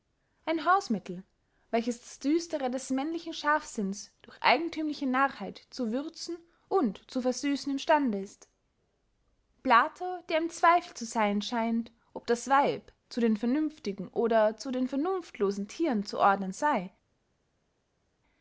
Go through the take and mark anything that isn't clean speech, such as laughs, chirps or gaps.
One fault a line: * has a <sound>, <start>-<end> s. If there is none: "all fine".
all fine